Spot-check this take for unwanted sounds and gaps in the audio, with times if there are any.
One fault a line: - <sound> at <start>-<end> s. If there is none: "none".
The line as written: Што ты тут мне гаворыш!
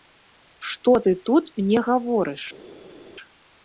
none